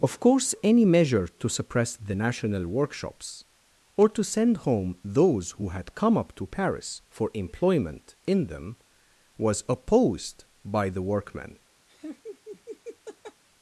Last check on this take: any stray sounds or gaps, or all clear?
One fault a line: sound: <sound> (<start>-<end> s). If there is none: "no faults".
sound: laugh (11.9-13.4 s)